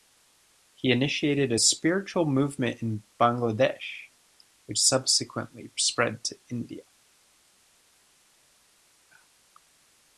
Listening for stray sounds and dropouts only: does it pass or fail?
pass